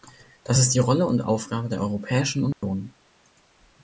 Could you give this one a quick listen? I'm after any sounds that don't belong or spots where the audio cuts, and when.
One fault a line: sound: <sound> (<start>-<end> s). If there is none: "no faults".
sound: dropout (2.5-2.6 s)